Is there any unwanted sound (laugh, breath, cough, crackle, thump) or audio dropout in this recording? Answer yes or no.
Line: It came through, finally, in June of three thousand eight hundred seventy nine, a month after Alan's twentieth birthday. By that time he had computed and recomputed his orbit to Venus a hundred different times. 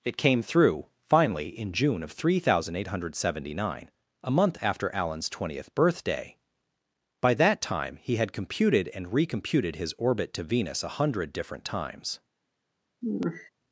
yes